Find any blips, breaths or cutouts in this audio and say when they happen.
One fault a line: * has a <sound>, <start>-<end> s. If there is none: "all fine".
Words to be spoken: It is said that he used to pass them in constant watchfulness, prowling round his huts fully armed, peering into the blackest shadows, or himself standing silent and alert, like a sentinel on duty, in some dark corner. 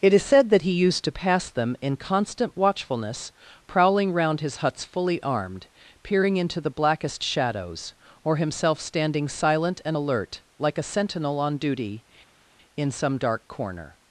all fine